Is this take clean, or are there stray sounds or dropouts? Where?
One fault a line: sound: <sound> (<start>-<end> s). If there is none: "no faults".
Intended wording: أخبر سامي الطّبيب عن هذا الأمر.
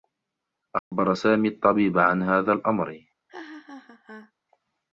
sound: dropout (0.8-0.9 s)
sound: laugh (3.3-4.3 s)